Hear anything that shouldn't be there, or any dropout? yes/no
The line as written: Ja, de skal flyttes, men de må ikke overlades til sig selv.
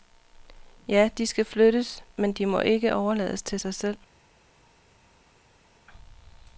no